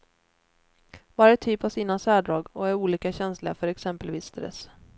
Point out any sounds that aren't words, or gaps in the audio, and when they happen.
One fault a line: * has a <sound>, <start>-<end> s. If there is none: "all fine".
all fine